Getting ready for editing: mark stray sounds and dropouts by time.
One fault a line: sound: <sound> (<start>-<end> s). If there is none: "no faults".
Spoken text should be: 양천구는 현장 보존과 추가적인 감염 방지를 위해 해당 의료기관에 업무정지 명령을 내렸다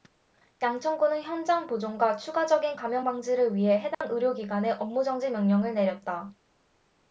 sound: dropout (3.9-4.0 s)